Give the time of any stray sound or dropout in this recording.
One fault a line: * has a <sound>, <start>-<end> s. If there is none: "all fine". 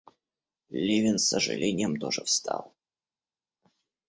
all fine